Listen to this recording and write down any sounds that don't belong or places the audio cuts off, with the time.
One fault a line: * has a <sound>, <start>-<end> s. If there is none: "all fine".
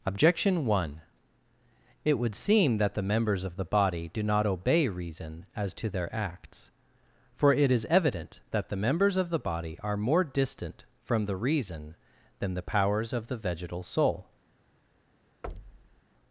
* has a thud, 15.4-16.0 s